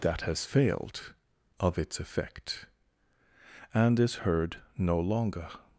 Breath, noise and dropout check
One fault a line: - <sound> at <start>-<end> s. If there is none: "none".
none